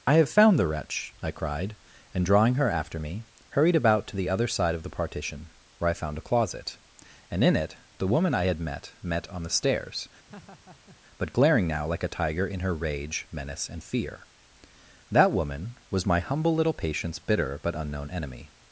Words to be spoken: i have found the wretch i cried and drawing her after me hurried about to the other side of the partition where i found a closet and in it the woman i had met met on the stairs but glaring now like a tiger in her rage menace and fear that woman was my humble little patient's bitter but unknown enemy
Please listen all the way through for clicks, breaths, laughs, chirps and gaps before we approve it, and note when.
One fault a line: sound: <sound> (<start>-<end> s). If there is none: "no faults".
sound: laugh (10.3-11.0 s)